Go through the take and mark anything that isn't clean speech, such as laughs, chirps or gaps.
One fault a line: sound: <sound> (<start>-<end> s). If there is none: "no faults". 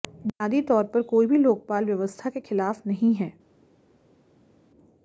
no faults